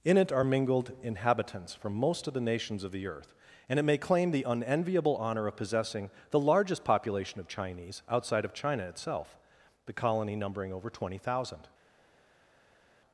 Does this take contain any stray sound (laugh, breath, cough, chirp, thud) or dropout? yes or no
no